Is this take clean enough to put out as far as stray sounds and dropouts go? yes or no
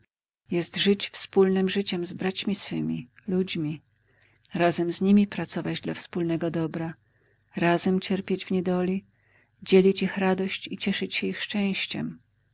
yes